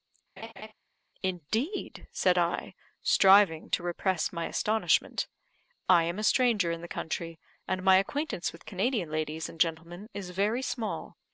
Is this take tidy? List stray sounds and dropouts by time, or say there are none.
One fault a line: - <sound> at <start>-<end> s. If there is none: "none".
- laugh at 0.4-0.7 s